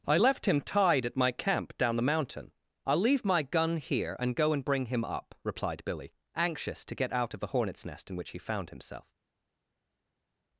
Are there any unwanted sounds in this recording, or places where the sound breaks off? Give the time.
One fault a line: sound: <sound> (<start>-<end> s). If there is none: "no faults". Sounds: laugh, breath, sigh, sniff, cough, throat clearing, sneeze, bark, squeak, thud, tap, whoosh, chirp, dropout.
no faults